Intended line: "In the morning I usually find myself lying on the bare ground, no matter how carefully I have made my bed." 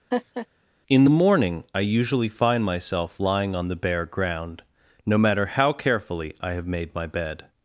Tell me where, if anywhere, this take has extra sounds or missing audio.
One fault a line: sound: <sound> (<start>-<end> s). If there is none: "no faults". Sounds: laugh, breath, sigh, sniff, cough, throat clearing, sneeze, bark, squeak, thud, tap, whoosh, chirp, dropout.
sound: laugh (0.1-0.5 s)